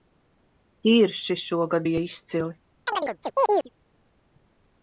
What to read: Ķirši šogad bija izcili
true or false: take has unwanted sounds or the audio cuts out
true